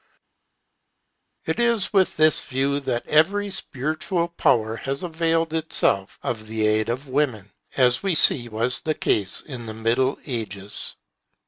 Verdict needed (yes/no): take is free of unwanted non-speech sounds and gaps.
yes